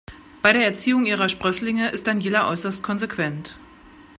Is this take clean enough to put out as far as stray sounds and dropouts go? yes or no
yes